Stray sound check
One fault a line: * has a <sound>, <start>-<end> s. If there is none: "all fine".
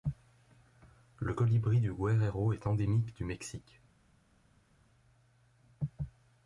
all fine